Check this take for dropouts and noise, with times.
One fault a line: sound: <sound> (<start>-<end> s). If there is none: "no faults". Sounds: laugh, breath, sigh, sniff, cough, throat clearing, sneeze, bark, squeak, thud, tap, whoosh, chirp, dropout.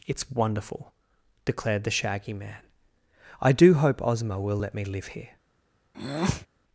sound: breath (5.9-6.5 s)